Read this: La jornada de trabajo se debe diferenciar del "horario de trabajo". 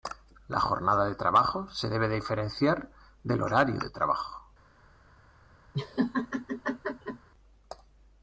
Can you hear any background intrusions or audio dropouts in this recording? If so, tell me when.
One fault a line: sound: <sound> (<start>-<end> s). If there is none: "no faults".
sound: laugh (5.7-7.3 s)